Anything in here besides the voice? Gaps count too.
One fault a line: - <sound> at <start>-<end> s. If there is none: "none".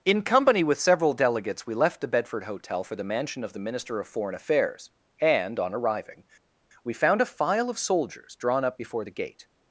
none